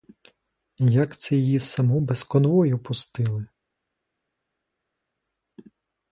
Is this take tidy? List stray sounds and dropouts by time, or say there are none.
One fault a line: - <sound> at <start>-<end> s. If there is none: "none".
none